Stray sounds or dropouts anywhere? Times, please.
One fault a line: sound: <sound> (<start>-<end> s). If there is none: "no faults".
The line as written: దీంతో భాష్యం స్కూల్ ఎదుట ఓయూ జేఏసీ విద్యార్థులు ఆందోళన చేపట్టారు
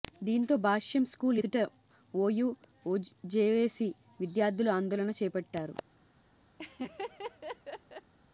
sound: laugh (6.6-8.1 s)